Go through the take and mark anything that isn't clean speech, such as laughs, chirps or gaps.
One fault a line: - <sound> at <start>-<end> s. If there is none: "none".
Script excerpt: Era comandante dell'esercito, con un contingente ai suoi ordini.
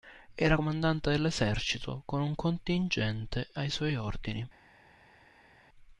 none